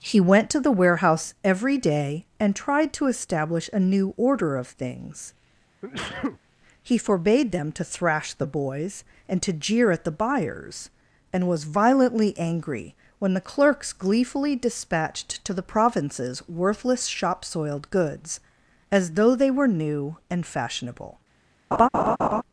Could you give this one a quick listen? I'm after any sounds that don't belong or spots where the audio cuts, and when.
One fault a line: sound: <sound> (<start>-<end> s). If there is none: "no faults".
sound: sneeze (5.8-6.4 s)
sound: laugh (21.7-22.4 s)